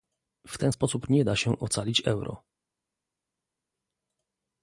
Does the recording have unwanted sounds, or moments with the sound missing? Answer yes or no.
no